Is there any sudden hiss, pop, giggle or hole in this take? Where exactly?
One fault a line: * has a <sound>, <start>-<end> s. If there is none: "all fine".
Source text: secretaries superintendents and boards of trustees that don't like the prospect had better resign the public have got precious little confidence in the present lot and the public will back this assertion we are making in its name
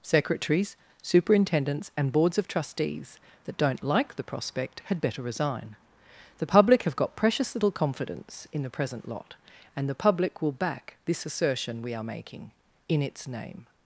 all fine